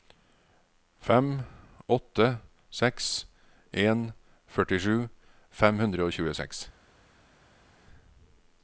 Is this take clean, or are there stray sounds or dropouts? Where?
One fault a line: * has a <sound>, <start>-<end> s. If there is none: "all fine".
all fine